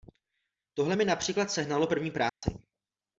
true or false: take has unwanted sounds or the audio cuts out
true